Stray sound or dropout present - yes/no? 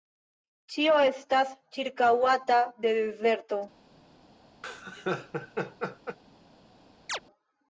yes